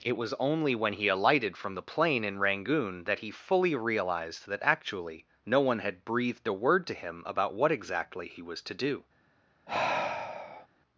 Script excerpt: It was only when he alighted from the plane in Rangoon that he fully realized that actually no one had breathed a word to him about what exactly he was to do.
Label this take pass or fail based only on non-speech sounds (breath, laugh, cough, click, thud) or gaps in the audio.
fail